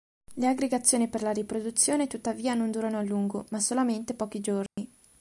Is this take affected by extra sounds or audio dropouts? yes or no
yes